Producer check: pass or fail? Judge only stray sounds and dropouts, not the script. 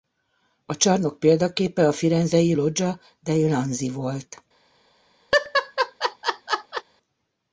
fail